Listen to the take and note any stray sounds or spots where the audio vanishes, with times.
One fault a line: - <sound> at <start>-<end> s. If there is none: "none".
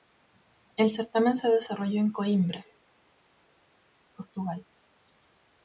none